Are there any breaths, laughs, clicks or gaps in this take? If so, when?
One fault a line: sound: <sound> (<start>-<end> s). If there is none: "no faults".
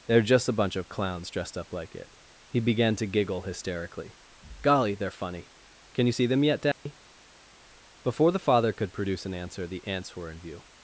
sound: dropout (6.7-6.9 s)